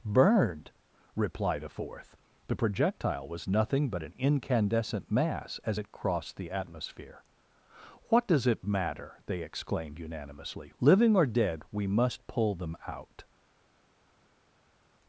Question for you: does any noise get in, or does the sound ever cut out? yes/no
no